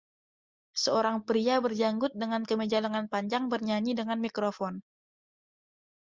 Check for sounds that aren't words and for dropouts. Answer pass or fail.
pass